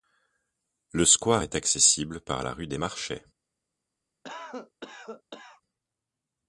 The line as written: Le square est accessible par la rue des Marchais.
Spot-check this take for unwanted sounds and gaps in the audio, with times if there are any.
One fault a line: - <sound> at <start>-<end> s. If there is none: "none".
- cough at 4.2-5.6 s